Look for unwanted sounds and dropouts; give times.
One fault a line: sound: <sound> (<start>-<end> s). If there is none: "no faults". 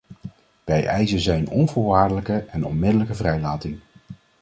no faults